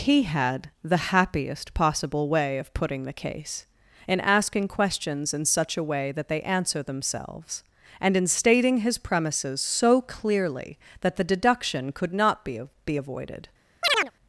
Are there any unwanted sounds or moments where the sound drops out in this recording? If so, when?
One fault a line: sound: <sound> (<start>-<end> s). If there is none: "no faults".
sound: chirp (13.8-14.1 s)